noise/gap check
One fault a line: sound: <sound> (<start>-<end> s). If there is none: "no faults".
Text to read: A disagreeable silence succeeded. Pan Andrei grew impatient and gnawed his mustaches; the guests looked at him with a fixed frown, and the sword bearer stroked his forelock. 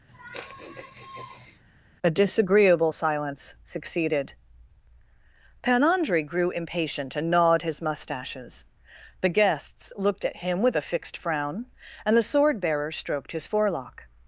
sound: sigh (0.1-1.6 s)